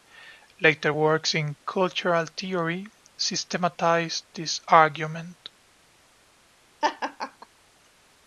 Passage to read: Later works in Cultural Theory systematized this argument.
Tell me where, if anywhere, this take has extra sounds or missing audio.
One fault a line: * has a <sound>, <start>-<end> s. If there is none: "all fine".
* has a laugh, 6.8-7.5 s